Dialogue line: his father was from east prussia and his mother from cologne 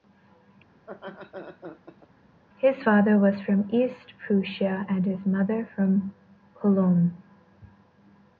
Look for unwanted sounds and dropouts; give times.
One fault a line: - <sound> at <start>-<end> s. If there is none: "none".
- laugh at 0.8-2.1 s